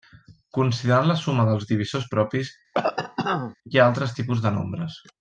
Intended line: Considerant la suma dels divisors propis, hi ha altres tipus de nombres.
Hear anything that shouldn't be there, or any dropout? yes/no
yes